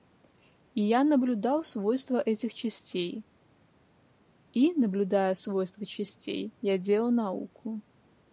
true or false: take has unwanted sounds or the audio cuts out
false